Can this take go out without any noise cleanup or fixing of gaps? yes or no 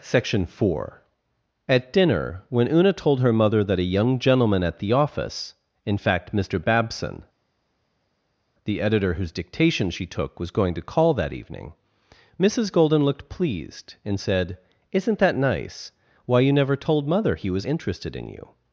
yes